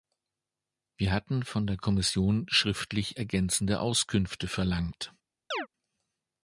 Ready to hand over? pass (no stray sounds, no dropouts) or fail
fail